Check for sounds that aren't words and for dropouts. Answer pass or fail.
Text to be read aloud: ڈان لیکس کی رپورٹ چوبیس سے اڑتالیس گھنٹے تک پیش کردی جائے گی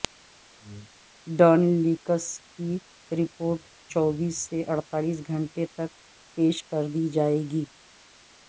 pass